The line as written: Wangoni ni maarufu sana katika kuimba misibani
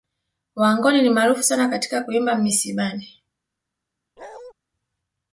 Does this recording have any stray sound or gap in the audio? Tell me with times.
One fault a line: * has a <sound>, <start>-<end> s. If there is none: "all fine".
* has a bark, 4.2-4.5 s